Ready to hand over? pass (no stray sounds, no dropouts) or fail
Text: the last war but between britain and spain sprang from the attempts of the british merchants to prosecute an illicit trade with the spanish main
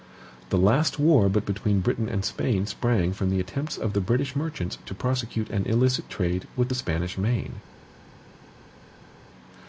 pass